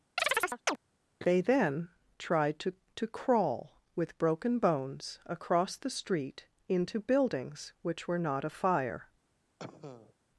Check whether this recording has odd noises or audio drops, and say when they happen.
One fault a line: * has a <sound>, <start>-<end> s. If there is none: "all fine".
* has a chirp, 0.2-0.8 s
* has a cough, 9.6-10.1 s